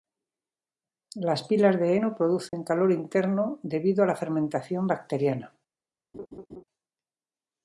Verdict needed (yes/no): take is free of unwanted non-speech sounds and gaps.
no